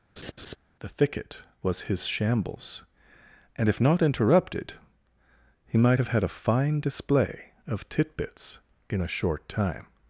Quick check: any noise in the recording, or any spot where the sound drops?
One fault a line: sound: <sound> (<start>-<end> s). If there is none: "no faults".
sound: laugh (0.2-0.6 s)